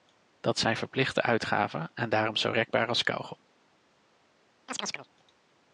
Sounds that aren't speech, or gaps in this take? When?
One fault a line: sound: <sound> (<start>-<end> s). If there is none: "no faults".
sound: chirp (4.7-5.1 s)